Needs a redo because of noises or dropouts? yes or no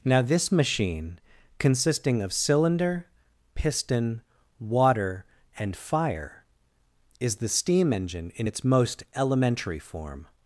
no